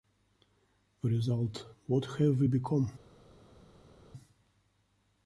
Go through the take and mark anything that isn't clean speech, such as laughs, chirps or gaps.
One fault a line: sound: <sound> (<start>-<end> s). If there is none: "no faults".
no faults